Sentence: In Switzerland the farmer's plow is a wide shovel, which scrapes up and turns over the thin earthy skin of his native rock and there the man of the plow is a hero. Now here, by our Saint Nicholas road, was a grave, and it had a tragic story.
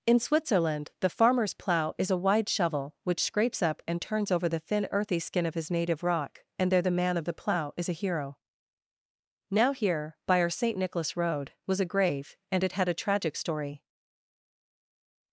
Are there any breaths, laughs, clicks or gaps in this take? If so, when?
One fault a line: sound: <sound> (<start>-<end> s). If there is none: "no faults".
no faults